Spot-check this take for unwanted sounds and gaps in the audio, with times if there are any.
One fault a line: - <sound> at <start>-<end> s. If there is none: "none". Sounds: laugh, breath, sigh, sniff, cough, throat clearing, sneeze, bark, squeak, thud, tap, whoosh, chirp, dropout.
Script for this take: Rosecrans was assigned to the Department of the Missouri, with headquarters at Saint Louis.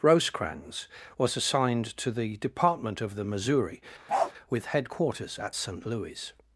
- bark at 4.1-4.3 s